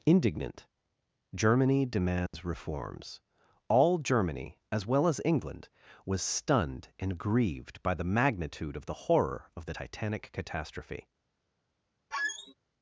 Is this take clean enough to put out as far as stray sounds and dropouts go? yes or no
no